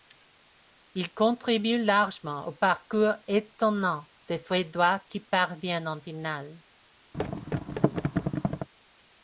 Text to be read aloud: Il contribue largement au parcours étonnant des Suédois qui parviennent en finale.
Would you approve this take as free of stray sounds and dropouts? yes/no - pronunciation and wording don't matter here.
no